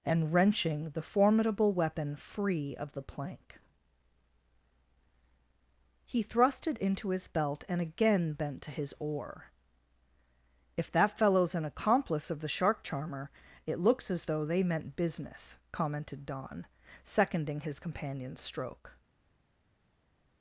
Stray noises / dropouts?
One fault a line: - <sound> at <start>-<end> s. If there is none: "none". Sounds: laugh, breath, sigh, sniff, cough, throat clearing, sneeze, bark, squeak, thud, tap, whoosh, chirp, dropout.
none